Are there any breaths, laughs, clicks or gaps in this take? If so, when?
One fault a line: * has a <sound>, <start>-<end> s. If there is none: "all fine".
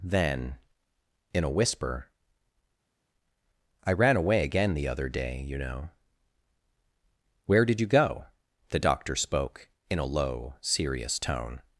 all fine